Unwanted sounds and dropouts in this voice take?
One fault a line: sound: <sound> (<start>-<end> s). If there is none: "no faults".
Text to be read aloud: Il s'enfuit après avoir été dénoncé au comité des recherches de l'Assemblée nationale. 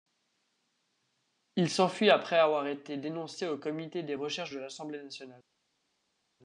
no faults